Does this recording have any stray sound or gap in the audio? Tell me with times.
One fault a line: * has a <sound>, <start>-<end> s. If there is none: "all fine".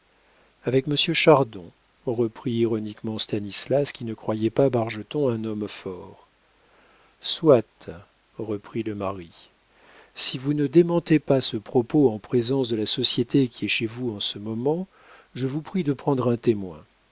all fine